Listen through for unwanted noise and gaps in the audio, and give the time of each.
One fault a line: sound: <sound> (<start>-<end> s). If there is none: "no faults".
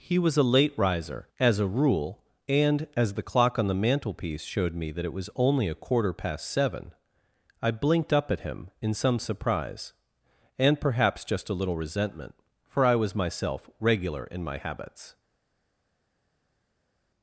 no faults